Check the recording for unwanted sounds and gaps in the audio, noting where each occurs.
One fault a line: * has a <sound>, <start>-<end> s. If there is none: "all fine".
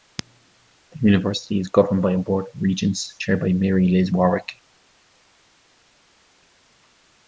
all fine